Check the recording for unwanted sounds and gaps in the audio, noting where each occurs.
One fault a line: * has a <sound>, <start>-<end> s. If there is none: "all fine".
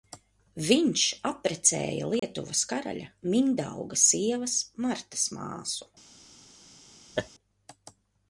* has a dropout, 2.2-2.2 s
* has a laugh, 7.1-7.3 s